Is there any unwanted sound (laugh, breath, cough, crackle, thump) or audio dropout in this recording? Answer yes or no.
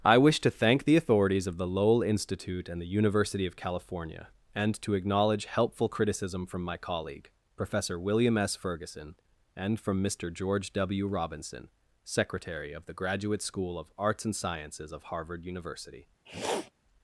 yes